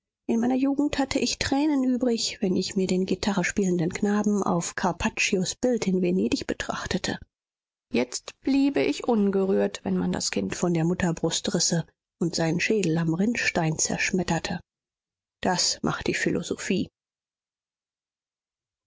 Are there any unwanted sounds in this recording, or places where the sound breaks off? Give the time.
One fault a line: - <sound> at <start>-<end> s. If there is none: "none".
none